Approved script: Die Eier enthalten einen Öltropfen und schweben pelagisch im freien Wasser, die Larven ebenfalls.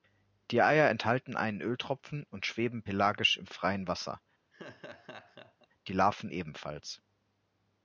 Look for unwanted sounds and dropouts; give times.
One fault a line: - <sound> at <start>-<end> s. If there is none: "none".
- laugh at 4.5-5.7 s